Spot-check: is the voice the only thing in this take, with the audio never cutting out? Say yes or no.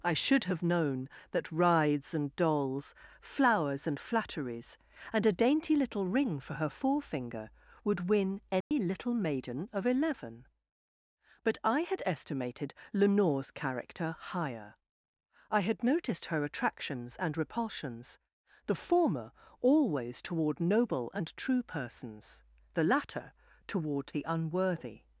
no